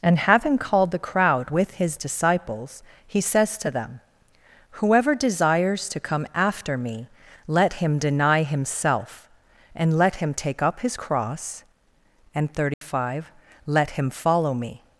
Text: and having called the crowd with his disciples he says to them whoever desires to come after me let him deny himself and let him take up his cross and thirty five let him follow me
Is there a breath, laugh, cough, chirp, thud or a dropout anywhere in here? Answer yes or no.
yes